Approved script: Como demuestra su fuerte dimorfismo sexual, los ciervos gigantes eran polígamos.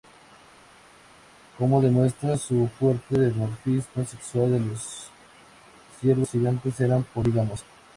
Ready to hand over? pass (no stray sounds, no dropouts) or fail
pass